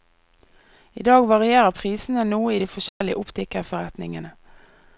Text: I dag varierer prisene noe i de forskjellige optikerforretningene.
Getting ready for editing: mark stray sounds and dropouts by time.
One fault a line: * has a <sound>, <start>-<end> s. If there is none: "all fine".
* has a dropout, 2.9-3.0 s